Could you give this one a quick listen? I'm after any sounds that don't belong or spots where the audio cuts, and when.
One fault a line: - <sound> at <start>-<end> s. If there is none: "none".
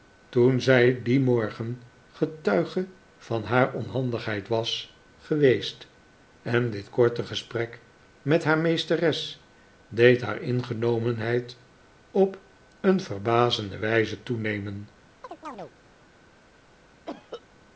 - chirp at 15.2-15.7 s
- cough at 17.1-17.4 s